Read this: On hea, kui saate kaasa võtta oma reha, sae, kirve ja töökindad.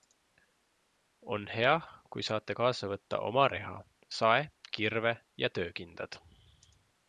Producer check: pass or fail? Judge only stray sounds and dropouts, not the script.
pass